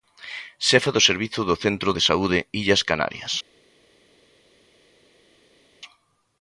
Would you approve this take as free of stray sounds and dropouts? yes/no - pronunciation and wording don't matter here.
yes